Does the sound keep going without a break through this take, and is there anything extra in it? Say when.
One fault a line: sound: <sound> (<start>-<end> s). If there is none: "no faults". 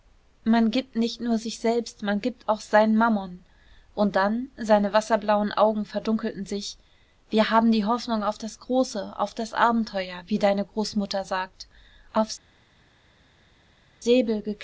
no faults